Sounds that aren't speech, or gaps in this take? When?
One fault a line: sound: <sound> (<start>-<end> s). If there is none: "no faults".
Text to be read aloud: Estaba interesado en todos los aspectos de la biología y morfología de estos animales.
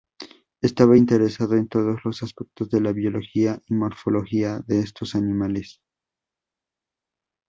no faults